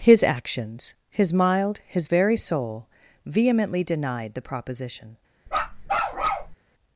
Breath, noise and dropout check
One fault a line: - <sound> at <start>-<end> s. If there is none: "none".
- bark at 5.5-6.6 s